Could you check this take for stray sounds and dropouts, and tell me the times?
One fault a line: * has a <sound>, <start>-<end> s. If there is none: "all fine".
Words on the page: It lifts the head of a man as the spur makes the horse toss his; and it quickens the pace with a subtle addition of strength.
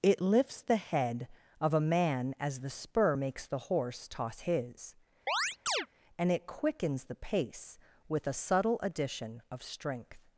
* has a chirp, 5.3-5.9 s